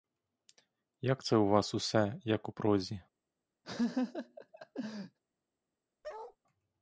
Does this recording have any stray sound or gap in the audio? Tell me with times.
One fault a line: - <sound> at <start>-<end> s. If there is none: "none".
- laugh at 3.6-5.2 s
- bark at 6.0-6.4 s